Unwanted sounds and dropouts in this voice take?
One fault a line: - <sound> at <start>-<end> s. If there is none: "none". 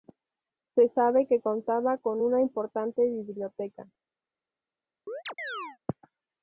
- chirp at 5.1-5.8 s